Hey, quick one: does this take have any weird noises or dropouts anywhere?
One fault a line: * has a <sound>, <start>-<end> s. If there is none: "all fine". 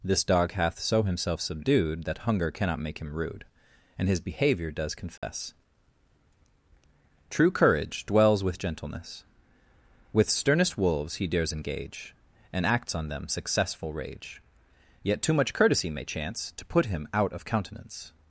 * has a dropout, 5.2-5.2 s